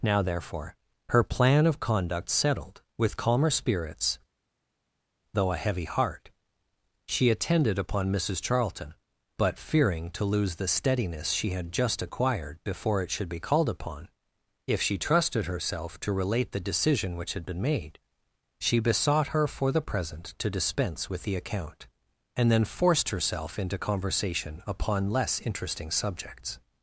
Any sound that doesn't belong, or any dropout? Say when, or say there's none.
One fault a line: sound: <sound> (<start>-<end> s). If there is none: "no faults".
no faults